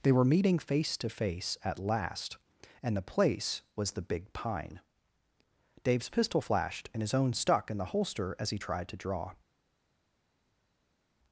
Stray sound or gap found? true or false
false